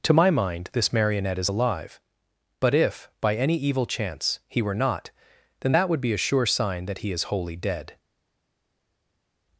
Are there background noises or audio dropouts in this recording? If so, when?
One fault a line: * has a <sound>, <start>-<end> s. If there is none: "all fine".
all fine